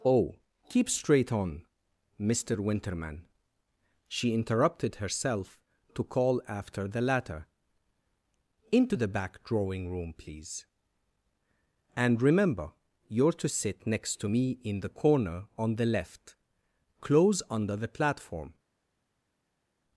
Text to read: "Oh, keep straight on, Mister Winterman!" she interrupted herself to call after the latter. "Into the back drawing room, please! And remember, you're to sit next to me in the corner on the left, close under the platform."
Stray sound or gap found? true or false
false